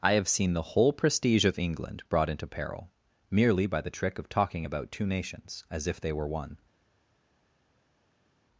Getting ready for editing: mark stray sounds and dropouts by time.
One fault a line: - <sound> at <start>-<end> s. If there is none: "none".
none